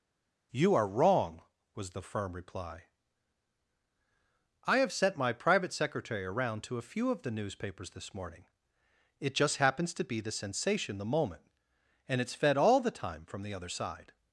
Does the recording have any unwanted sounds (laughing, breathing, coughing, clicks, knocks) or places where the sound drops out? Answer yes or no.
no